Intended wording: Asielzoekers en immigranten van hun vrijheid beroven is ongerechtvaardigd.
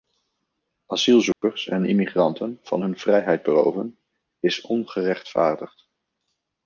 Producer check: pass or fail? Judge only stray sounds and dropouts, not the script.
fail